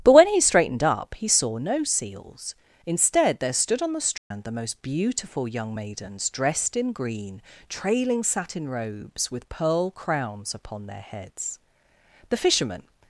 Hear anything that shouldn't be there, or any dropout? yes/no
yes